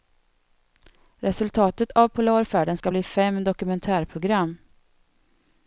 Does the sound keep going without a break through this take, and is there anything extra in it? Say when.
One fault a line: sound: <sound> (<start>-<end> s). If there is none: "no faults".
no faults